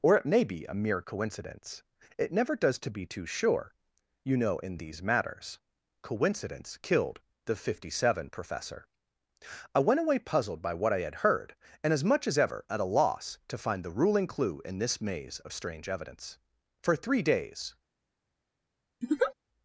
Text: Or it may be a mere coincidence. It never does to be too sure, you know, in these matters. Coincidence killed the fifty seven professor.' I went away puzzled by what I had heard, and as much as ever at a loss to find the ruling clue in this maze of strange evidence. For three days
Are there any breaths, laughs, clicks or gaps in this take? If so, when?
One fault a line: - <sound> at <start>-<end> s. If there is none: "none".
- laugh at 19.0-19.3 s